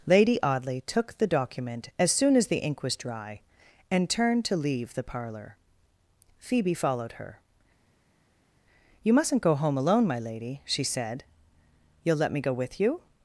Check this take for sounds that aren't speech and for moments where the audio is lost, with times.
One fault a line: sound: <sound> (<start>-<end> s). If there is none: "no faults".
no faults